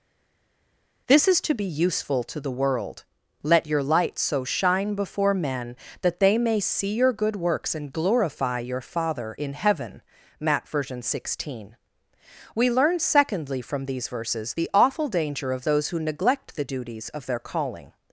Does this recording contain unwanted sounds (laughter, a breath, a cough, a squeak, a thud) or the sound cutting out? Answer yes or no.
no